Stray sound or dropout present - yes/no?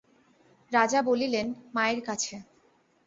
no